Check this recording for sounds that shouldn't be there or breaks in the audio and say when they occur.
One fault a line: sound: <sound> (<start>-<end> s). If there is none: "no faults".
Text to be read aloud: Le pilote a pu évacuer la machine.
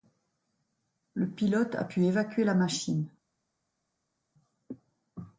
no faults